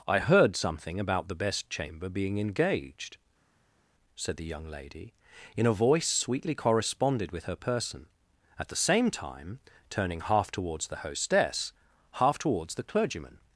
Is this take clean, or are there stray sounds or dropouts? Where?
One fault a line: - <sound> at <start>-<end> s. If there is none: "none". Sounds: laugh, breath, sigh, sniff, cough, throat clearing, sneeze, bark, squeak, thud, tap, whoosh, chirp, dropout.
none